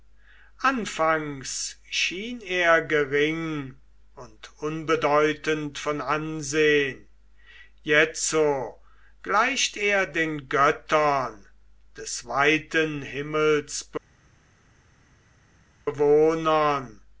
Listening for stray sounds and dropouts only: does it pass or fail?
pass